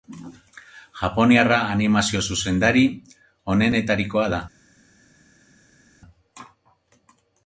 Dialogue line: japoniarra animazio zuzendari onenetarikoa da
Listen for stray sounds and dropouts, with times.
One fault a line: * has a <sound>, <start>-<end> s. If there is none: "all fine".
all fine